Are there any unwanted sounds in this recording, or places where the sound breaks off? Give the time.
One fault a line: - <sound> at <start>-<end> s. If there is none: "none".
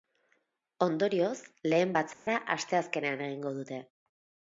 - dropout at 2.1-2.3 s